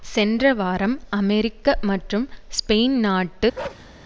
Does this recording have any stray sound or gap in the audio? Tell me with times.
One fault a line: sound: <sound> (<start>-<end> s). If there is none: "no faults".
sound: bark (3.5-3.9 s)